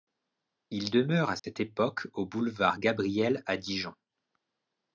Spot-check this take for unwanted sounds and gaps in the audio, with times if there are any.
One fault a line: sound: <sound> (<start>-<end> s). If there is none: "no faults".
sound: dropout (1.4-1.4 s)